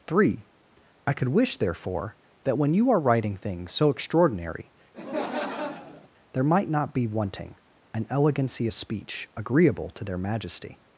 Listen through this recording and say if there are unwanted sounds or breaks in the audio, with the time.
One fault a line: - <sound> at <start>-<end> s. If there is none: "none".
- laugh at 4.9-6.1 s